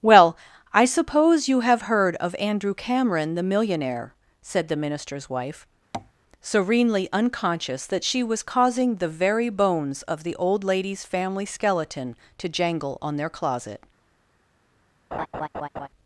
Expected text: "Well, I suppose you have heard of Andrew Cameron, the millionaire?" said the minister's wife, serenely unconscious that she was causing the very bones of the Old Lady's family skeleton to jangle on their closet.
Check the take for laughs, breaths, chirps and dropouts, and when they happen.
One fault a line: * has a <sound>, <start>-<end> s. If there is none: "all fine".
* has a tap, 5.9-6.1 s
* has a laugh, 15.1-15.9 s